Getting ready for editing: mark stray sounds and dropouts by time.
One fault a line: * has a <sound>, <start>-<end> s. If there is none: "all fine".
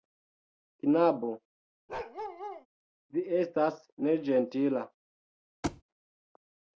* has a bark, 1.9-2.7 s
* has a thud, 5.6-5.8 s